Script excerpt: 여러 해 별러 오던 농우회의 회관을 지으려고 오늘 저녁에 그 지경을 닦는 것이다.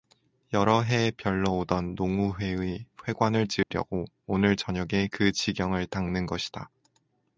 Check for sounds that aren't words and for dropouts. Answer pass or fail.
fail